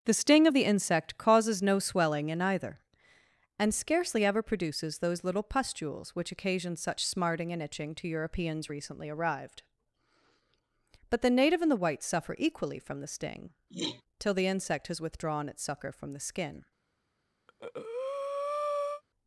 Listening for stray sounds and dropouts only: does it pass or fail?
fail